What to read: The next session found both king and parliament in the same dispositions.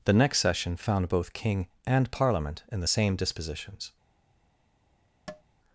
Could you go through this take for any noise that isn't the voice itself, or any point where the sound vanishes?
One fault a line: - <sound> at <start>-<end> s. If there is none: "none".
- tap at 5.3-5.4 s